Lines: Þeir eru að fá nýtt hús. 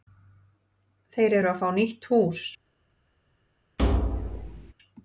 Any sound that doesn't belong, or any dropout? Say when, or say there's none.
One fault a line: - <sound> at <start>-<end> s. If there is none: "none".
- thud at 3.8-4.7 s